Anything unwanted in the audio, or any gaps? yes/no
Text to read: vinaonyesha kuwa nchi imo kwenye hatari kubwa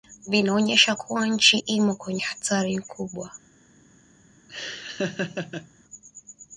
yes